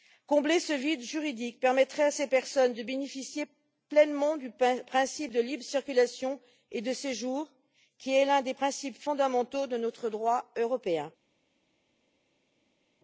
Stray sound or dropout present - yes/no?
no